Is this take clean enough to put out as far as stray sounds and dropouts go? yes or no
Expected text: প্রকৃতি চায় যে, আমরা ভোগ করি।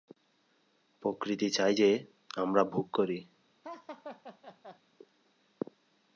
no